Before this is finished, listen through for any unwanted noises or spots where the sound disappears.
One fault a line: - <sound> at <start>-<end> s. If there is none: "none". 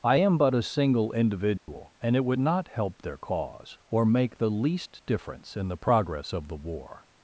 - dropout at 1.6-1.7 s